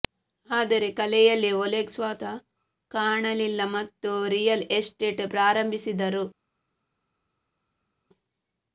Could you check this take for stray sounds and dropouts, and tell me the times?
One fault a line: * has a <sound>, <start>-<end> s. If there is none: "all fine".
all fine